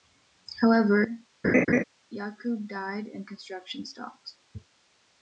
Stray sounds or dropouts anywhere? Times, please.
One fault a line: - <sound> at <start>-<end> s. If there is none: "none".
- laugh at 1.4-1.8 s